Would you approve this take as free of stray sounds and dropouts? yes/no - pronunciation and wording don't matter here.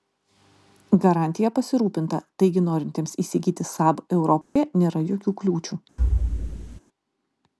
no